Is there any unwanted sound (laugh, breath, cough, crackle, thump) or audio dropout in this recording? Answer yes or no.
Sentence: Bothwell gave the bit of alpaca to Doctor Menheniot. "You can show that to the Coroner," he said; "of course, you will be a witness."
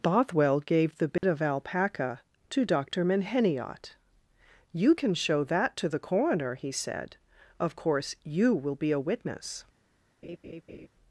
yes